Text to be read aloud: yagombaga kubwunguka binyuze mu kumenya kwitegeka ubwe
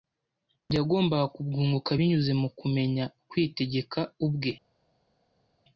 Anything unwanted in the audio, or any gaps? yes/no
no